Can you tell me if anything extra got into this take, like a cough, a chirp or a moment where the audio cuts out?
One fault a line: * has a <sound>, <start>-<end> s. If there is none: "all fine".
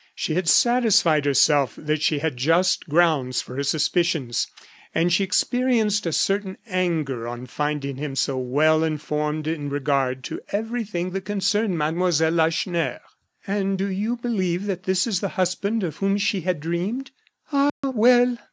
* has a dropout, 17.7-17.8 s